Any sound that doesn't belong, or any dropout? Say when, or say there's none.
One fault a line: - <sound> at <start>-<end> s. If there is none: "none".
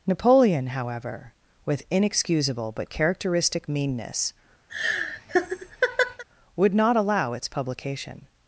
- laugh at 4.7-6.2 s